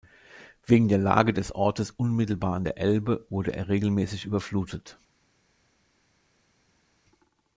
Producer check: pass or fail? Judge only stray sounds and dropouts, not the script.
pass